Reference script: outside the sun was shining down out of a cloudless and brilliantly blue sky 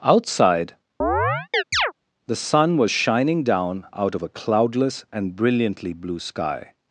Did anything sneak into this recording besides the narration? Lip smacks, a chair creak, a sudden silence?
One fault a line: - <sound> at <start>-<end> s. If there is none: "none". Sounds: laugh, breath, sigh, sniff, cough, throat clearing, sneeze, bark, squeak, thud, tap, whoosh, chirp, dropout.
- chirp at 1.0-1.9 s